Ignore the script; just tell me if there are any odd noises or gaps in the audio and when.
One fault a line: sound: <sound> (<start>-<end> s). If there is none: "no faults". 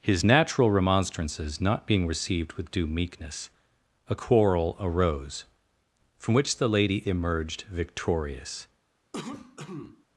sound: cough (9.1-10.0 s)